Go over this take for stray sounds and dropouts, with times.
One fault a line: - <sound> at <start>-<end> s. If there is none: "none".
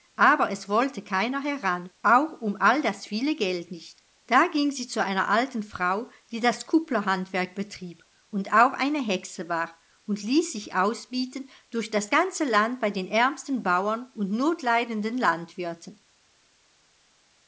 none